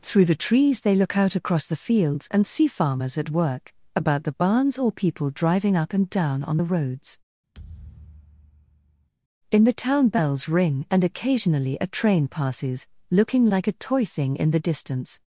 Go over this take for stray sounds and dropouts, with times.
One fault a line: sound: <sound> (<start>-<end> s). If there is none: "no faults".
sound: thud (7.5-9.1 s)